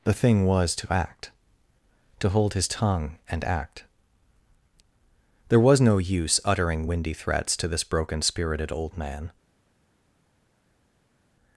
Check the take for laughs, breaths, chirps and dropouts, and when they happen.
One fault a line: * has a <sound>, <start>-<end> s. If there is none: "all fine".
all fine